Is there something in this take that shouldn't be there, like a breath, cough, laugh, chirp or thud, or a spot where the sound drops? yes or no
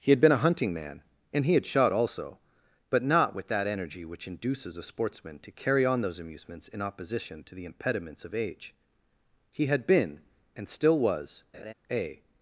yes